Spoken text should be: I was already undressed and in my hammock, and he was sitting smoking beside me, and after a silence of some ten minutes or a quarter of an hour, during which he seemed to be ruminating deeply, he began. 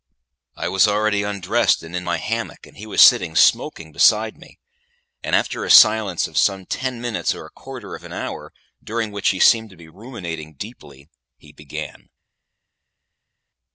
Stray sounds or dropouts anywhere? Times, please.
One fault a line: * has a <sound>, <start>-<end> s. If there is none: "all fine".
all fine